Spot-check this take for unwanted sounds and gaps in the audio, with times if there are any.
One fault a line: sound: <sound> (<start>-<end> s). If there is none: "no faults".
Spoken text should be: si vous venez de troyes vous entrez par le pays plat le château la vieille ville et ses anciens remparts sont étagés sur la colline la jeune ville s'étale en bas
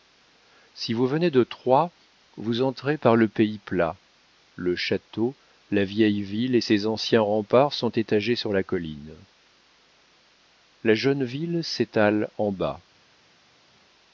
no faults